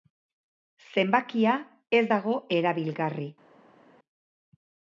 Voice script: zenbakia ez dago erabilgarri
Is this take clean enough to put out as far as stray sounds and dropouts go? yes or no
yes